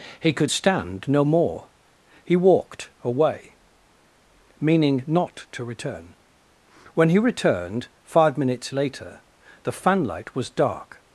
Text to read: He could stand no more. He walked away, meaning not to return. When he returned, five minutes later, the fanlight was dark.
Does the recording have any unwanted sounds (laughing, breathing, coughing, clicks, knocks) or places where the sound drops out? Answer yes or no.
no